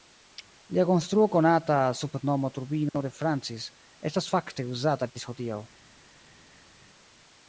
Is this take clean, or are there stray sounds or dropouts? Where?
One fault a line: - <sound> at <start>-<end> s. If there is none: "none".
none